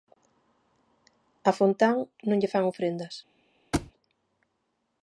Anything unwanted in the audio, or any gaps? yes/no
yes